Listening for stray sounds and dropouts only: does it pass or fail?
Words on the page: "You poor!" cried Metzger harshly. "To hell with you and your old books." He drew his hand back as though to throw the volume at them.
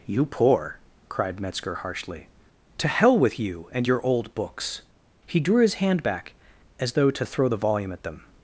pass